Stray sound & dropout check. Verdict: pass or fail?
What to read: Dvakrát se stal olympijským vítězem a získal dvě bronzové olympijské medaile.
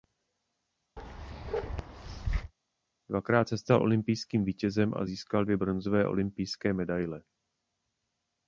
fail